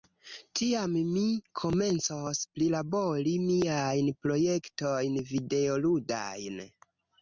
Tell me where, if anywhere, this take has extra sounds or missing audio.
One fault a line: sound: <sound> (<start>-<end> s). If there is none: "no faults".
no faults